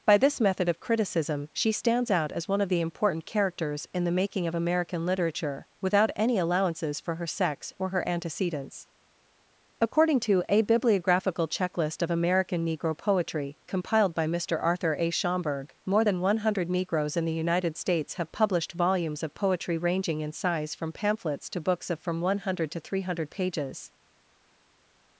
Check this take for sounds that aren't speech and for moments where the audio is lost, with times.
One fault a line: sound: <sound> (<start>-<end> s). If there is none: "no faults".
no faults